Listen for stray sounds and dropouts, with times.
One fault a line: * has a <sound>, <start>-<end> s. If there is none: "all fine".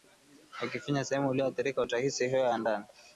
all fine